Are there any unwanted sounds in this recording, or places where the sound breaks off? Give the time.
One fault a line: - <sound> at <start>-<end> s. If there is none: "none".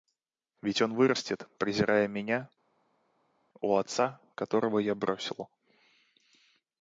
none